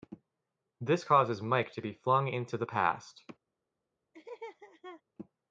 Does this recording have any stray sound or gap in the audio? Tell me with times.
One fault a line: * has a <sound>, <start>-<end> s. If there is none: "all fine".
* has a laugh, 4.1-5.0 s